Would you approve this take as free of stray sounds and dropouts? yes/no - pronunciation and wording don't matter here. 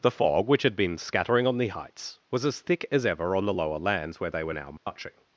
no